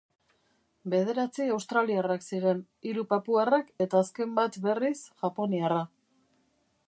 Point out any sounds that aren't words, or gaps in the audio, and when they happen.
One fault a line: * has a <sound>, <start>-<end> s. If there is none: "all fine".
all fine